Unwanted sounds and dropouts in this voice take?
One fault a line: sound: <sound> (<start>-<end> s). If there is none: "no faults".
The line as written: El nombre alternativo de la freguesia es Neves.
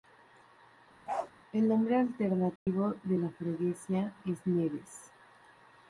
sound: bark (1.1-1.3 s)
sound: dropout (2.6-2.7 s)